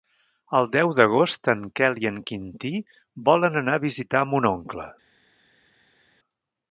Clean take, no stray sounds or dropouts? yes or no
yes